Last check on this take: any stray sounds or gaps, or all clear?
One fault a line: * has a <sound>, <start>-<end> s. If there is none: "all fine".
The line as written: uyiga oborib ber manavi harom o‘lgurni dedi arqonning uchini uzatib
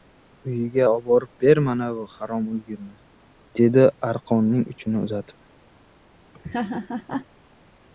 * has a laugh, 6.3-7.3 s